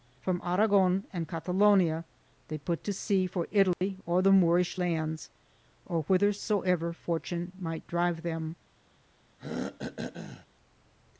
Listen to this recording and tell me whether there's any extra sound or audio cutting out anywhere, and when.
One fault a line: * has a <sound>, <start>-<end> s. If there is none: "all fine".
* has a dropout, 3.7-3.8 s
* has a throat clearing, 9.4-10.5 s